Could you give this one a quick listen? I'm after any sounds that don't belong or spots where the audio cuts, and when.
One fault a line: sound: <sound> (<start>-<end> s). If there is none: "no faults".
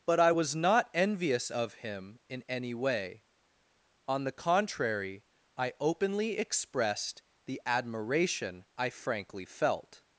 no faults